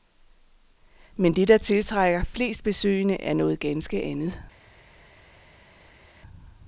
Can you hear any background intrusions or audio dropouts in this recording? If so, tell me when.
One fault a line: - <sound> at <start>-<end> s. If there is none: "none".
none